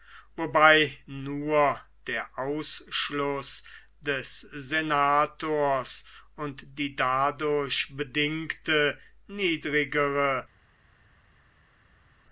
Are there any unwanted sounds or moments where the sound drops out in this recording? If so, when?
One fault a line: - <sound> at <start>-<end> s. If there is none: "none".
none